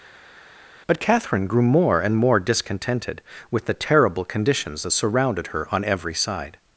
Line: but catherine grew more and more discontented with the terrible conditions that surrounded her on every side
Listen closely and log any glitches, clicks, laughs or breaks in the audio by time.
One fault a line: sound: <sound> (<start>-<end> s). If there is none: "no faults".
no faults